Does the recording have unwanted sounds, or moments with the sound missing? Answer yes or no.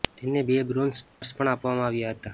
yes